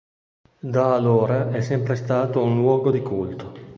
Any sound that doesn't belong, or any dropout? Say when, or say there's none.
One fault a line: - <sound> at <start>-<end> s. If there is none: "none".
none